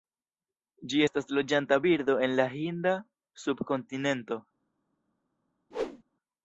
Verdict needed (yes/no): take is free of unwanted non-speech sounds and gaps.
no